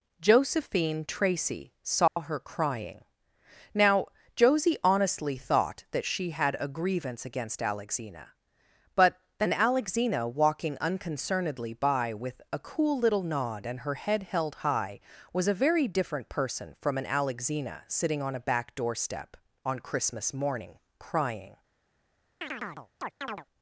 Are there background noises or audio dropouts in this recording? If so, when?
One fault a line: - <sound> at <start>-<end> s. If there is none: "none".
- dropout at 2.1-2.2 s
- chirp at 22.4-23.5 s